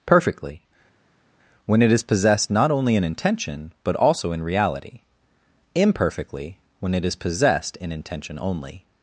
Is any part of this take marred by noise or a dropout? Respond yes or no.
no